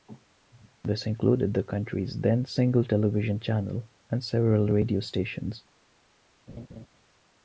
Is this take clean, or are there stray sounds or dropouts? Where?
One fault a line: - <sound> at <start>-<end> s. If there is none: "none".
- laugh at 6.5-6.9 s